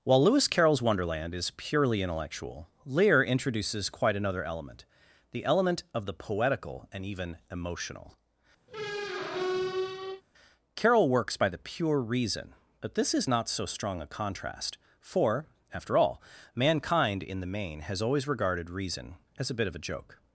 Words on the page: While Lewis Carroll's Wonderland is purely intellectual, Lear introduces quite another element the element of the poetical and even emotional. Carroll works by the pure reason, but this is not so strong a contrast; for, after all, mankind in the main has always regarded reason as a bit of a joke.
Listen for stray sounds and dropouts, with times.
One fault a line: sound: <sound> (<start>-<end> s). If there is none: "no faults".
sound: squeak (8.7-10.2 s)